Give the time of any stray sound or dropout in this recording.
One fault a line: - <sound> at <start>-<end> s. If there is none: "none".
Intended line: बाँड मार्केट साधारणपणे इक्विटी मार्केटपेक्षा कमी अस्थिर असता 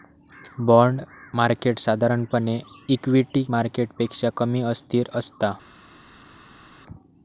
none